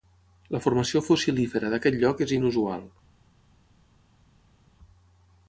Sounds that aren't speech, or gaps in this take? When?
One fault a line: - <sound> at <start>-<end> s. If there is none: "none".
none